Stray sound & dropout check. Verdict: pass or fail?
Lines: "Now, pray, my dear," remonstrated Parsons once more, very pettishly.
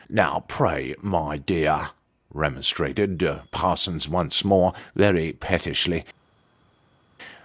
pass